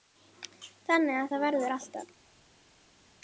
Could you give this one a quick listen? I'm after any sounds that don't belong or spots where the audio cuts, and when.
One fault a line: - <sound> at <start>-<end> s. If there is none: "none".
none